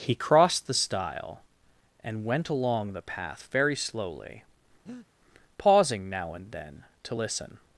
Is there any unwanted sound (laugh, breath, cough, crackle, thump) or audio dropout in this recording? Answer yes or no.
yes